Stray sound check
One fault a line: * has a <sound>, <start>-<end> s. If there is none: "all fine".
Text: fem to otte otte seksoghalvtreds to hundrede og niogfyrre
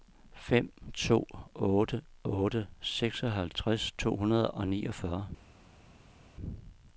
all fine